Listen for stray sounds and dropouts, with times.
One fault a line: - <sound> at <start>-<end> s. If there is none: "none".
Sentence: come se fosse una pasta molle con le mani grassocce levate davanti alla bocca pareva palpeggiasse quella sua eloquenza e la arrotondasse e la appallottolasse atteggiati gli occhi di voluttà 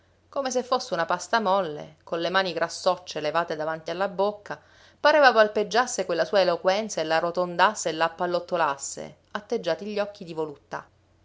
none